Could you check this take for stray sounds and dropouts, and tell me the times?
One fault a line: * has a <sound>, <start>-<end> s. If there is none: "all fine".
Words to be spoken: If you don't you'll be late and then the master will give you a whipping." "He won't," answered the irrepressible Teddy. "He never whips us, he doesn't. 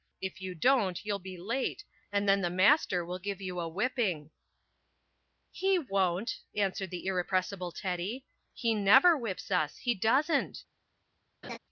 * has a laugh, 11.4-11.6 s